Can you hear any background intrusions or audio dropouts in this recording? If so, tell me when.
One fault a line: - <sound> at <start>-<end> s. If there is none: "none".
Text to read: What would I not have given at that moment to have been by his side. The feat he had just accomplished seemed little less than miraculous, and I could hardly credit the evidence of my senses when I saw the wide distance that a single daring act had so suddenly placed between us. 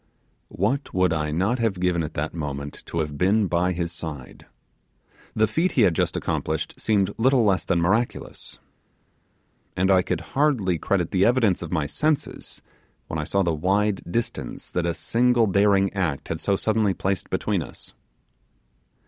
none